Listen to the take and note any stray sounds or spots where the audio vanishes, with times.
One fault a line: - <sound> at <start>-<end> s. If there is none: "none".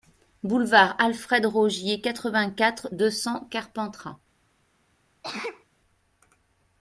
- sneeze at 5.2-5.6 s